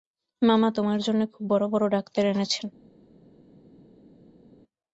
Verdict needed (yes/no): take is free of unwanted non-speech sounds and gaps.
yes